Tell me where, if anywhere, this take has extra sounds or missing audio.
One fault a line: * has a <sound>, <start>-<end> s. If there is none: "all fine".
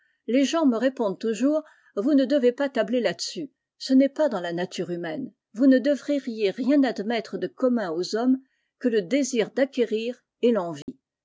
* has a dropout, 10.8-10.9 s